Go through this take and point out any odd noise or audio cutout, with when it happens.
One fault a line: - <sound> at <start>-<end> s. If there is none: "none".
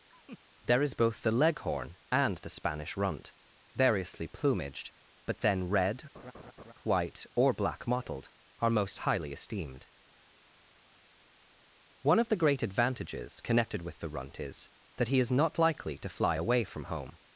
- laugh at 0.1-0.4 s
- laugh at 6.1-6.7 s